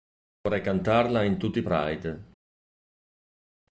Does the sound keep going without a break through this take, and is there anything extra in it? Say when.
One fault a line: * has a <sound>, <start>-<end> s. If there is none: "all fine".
all fine